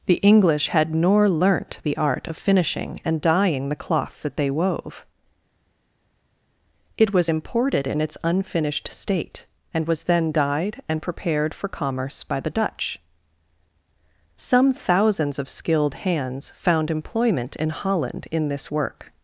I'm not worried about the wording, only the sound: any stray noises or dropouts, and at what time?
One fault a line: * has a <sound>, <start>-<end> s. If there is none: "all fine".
all fine